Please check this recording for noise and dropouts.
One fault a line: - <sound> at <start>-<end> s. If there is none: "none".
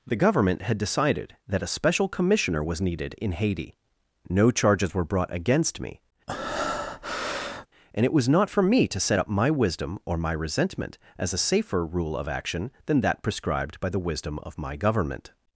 - breath at 6.3-7.7 s